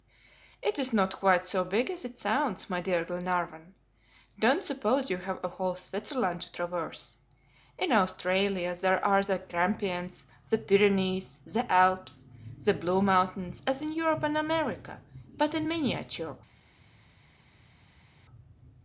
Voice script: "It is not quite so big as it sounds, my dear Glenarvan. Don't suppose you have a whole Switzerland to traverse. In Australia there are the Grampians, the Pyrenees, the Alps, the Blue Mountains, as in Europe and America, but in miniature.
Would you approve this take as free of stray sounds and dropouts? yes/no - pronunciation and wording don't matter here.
yes